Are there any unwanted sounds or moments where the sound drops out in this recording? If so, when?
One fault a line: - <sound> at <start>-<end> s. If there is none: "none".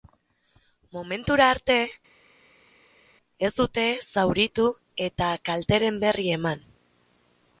none